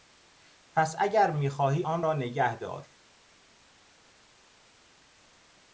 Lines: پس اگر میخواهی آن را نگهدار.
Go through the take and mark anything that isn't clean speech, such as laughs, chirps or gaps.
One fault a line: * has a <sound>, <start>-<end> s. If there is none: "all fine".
all fine